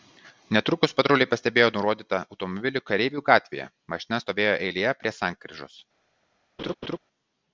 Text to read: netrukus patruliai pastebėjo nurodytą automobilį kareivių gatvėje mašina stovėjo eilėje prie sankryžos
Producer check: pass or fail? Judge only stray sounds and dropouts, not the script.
fail